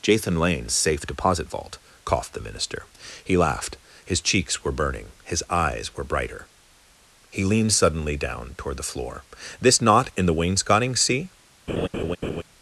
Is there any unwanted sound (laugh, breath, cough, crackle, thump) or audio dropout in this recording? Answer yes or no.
yes